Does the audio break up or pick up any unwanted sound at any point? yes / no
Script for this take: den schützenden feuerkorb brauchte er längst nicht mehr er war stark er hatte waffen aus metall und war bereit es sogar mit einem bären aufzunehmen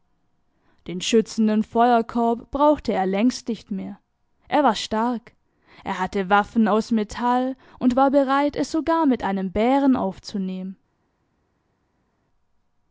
no